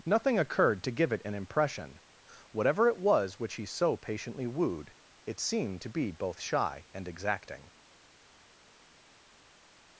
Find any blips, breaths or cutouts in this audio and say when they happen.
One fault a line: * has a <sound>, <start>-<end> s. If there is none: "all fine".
all fine